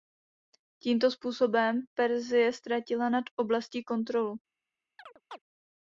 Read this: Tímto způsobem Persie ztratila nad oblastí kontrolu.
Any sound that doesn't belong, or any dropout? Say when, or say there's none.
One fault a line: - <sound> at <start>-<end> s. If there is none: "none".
- chirp at 5.0-5.4 s